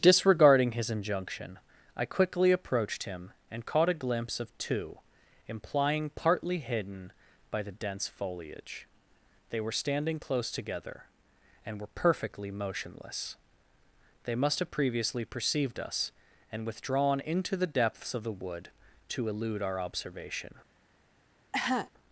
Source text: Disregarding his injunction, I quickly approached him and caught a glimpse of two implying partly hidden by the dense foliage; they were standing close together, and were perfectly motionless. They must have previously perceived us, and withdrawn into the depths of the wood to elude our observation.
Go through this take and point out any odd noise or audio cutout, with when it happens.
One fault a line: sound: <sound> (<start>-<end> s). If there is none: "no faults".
sound: cough (21.5-21.9 s)